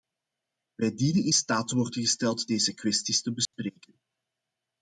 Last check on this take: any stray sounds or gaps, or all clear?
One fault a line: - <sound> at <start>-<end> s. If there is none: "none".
- dropout at 3.5-3.5 s